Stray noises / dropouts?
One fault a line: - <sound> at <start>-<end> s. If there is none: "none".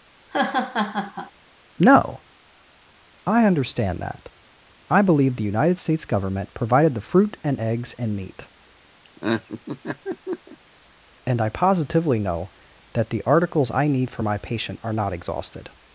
- laugh at 0.2-1.3 s
- laugh at 9.0-10.6 s